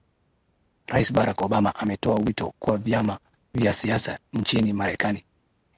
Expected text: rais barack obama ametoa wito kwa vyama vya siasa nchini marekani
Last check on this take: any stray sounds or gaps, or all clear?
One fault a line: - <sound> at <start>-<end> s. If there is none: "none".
none